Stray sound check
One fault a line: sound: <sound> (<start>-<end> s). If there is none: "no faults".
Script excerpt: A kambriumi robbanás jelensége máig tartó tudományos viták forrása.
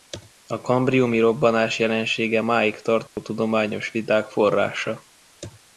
sound: dropout (3.1-3.2 s)